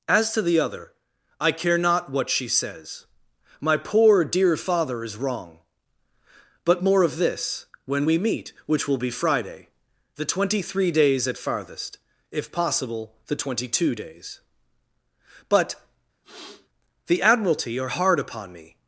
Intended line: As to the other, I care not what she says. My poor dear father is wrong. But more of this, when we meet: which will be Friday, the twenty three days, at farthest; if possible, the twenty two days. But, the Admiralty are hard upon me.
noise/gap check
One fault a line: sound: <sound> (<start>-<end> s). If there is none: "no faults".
sound: sniff (16.2-16.7 s)